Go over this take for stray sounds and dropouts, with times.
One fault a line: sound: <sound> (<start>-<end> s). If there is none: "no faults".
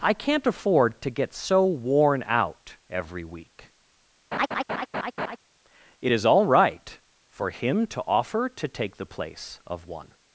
sound: laugh (4.3-5.4 s)